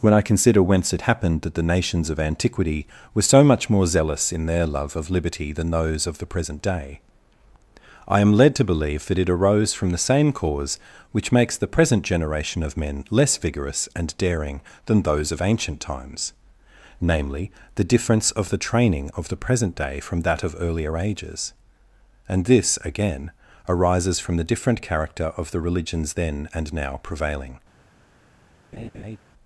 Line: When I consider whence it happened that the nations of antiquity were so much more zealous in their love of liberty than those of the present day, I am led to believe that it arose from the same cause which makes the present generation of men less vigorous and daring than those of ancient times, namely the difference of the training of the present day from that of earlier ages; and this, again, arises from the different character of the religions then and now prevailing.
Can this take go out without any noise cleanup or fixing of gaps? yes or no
no